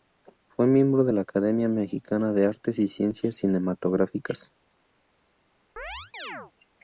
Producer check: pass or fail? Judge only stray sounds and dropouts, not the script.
fail